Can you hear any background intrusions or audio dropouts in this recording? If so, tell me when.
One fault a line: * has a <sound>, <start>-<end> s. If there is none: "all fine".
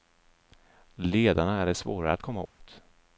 * has a dropout, 2.5-2.6 s